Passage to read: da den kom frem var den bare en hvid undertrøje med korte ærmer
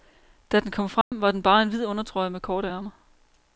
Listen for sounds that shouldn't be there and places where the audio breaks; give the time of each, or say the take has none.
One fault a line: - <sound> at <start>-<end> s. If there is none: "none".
- dropout at 1.0-1.1 s